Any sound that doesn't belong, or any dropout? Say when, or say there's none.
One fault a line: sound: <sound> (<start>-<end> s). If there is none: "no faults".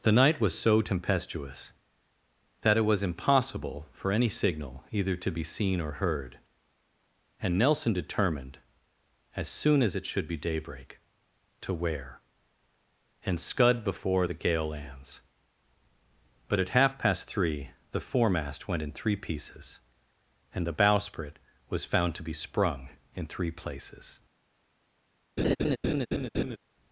sound: laugh (25.4-26.6 s)